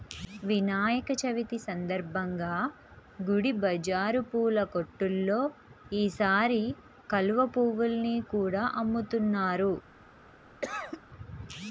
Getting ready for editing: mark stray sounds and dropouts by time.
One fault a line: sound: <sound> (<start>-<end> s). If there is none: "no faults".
sound: cough (10.6-11.0 s)